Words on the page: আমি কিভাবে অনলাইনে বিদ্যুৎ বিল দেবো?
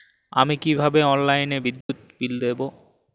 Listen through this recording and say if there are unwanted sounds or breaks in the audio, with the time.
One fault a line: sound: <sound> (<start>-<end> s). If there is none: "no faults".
sound: dropout (1.8-1.9 s)